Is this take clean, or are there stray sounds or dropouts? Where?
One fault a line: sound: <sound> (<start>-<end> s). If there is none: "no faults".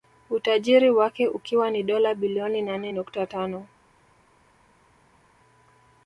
no faults